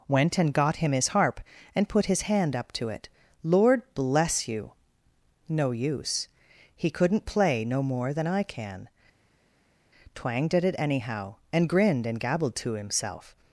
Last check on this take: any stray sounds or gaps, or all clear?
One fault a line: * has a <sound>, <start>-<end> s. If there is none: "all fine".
all fine